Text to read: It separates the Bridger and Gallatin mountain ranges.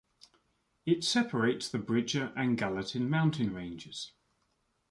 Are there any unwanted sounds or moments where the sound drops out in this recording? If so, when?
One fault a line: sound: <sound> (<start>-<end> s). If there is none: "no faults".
no faults